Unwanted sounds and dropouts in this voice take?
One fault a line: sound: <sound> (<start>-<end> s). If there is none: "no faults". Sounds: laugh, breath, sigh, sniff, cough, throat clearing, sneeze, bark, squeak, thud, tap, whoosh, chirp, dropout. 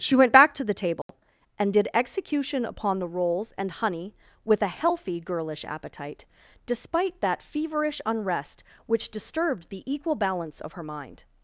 sound: dropout (1.0-1.1 s)